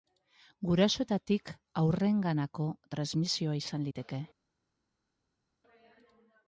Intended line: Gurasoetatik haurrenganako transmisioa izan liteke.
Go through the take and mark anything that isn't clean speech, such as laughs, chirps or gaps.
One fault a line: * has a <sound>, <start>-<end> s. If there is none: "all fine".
all fine